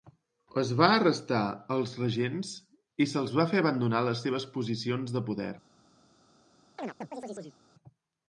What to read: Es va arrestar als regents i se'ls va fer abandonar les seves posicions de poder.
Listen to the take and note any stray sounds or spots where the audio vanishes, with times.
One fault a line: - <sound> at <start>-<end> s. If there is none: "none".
- chirp at 6.8-7.6 s